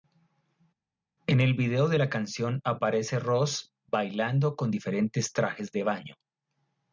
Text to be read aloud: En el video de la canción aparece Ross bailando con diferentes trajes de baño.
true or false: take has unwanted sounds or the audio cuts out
false